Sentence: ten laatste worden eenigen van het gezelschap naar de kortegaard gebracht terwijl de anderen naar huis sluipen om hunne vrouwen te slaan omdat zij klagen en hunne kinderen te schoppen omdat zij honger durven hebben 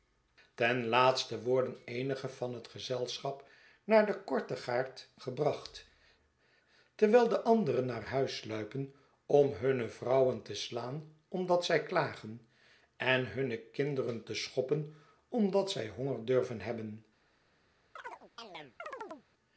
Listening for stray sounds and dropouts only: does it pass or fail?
fail